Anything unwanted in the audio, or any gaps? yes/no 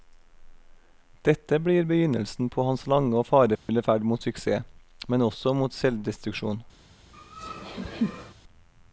yes